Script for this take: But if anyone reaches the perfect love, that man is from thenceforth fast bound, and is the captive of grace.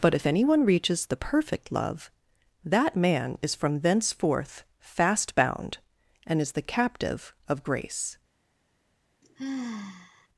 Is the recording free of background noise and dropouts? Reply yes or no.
no